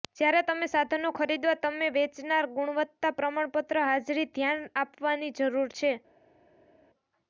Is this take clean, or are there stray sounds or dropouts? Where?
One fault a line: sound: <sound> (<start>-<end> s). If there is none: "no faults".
no faults